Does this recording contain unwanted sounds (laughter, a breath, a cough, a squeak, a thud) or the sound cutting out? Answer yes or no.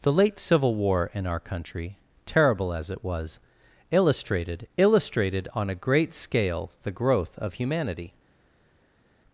no